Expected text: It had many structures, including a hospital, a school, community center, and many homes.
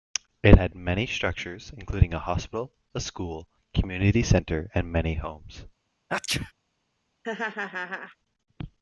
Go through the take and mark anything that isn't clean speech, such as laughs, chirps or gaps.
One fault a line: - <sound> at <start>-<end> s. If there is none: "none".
- sneeze at 6.1-6.5 s
- laugh at 7.2-8.2 s